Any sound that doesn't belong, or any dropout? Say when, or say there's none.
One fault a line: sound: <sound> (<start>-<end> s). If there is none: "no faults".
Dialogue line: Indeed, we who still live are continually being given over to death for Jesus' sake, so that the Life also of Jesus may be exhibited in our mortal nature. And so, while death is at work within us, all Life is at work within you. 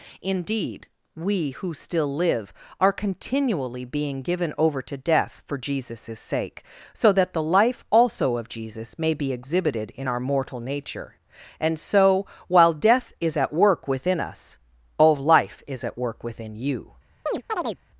sound: chirp (17.3-17.8 s)